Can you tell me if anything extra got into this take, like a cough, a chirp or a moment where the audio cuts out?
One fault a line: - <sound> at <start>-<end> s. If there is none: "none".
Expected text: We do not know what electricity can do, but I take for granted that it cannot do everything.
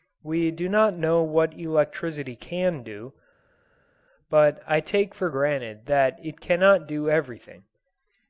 none